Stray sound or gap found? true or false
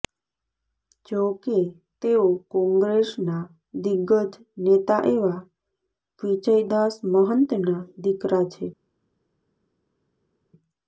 false